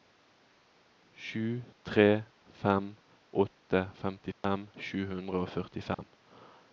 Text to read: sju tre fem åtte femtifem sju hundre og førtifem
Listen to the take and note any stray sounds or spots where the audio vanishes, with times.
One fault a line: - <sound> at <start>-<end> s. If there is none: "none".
- dropout at 4.3-4.4 s
- dropout at 5.9-6.0 s